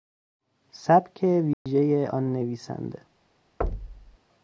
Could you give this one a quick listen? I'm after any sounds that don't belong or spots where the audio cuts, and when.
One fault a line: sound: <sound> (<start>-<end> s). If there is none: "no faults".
sound: dropout (1.5-1.7 s)
sound: thud (3.6-4.2 s)